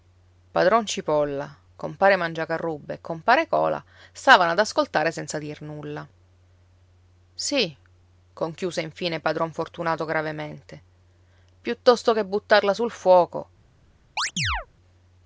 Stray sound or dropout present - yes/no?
yes